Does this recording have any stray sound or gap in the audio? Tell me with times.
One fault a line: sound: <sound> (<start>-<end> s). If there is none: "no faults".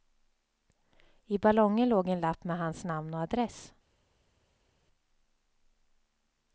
no faults